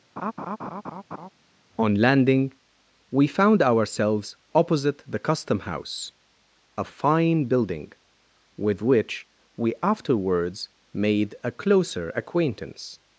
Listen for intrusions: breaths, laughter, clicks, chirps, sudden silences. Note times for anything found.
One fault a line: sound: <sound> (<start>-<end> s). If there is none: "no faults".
sound: laugh (0.2-1.3 s)